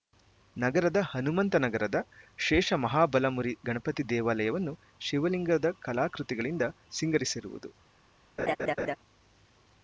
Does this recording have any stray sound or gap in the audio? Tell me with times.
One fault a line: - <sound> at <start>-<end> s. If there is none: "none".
- laugh at 8.4-9.0 s